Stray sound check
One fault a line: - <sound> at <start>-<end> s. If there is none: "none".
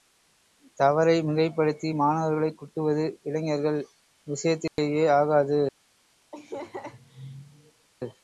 - dropout at 4.7-4.8 s
- laugh at 6.3-7.9 s